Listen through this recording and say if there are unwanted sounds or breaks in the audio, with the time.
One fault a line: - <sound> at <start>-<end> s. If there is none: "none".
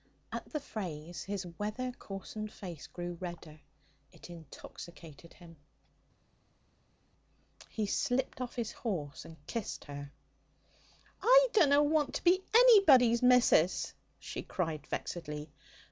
none